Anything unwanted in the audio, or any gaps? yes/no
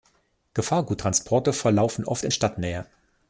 no